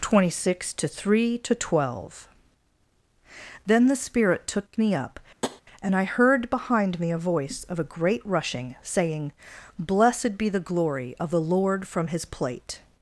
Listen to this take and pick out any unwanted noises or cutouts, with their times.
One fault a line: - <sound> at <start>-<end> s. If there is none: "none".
- tap at 5.4-5.6 s